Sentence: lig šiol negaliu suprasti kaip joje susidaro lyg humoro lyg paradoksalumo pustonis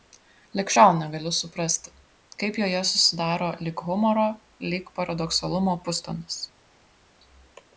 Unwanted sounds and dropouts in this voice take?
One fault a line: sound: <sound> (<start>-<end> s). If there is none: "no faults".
no faults